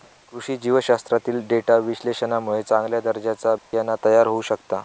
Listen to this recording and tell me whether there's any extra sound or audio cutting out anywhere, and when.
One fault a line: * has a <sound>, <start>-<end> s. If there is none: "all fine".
* has a dropout, 3.6-3.7 s